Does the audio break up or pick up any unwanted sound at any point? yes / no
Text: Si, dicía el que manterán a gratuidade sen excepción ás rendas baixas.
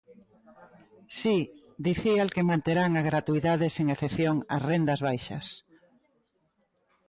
no